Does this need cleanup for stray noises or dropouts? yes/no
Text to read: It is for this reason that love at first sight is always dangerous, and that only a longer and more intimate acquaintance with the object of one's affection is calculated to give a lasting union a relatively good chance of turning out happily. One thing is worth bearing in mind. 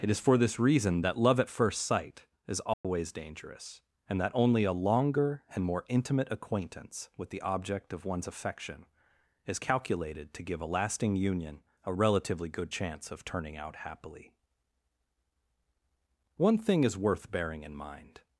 yes